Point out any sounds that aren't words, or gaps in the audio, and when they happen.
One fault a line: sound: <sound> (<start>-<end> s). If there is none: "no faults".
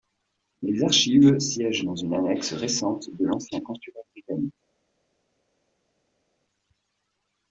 no faults